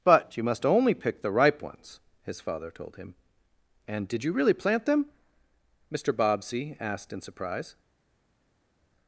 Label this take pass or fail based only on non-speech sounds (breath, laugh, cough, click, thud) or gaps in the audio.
pass